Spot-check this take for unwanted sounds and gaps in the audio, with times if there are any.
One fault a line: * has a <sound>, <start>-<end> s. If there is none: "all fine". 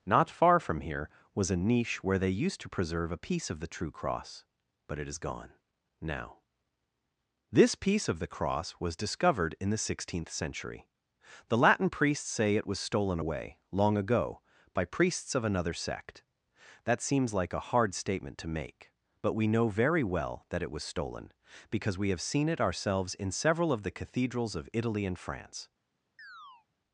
* has a chirp, 26.2-26.7 s